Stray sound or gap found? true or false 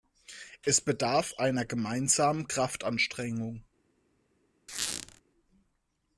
true